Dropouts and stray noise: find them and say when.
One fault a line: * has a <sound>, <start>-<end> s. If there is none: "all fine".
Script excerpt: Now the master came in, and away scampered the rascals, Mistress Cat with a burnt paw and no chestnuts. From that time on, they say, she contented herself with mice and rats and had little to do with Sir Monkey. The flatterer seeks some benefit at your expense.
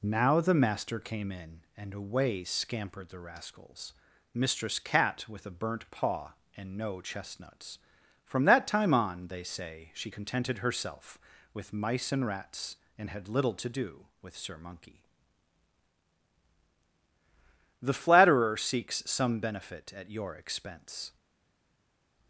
all fine